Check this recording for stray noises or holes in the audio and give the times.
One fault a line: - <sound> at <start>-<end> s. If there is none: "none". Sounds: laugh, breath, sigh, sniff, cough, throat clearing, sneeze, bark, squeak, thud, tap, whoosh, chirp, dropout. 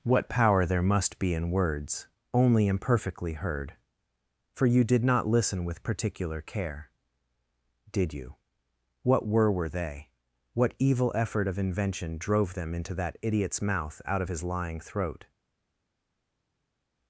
none